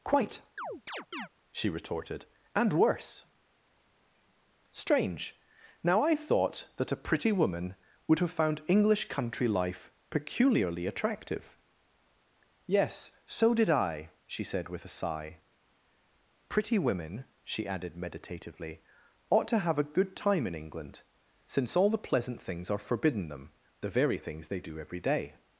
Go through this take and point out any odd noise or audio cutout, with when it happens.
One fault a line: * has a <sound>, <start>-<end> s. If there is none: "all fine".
* has a chirp, 0.6-1.3 s